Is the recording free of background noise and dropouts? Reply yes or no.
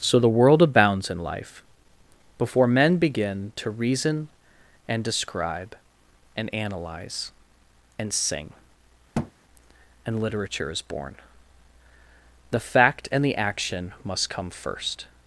no